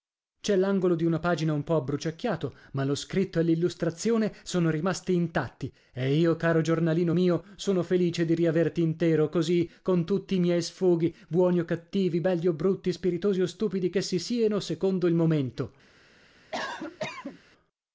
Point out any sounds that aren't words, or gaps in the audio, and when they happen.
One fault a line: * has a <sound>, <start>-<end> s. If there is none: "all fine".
* has a cough, 16.5-17.4 s